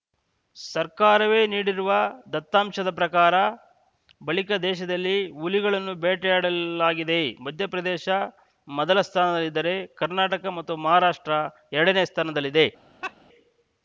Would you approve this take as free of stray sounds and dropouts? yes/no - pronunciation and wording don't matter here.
no